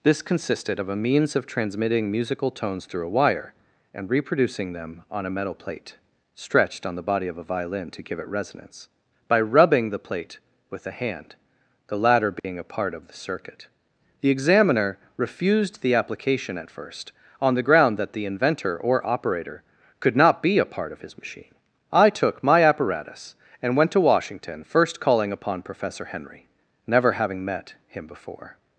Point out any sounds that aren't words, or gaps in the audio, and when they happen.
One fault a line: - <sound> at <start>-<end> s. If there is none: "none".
- dropout at 12.4-12.4 s